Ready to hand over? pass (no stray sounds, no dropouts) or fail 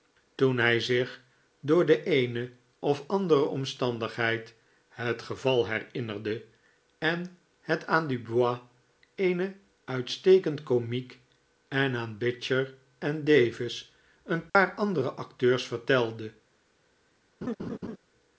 fail